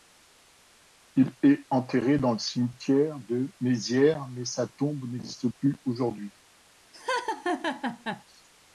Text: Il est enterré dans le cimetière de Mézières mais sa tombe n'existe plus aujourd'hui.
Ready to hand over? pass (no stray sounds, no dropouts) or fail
fail